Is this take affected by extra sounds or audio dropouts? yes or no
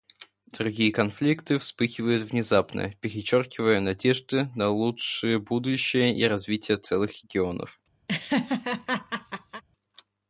yes